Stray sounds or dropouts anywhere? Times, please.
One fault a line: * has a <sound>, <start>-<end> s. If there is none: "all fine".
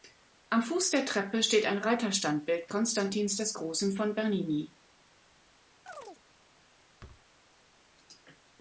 * has a chirp, 5.9-6.2 s
* has a thud, 7.0-7.3 s